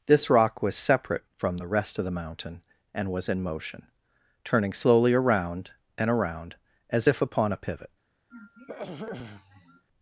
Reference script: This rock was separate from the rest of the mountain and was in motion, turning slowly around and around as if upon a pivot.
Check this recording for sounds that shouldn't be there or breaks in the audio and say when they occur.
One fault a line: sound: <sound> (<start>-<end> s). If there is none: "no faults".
sound: throat clearing (8.3-9.9 s)